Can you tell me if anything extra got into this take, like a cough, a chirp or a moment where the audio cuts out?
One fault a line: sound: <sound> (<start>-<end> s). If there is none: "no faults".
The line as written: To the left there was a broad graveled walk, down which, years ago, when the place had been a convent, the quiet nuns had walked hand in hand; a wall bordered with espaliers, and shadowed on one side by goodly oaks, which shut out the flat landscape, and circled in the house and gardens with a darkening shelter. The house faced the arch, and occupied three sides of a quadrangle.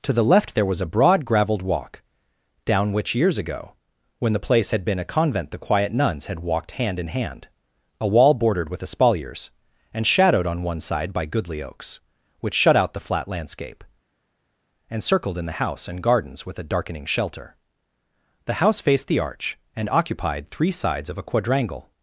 no faults